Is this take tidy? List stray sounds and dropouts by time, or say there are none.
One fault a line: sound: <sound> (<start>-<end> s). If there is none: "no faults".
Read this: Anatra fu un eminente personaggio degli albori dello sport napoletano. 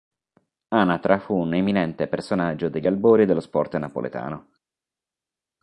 no faults